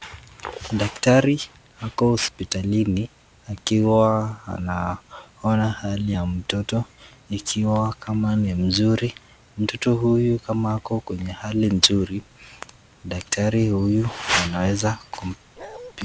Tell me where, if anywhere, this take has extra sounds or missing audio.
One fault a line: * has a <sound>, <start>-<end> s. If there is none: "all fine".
* has a bark, 15.6-15.9 s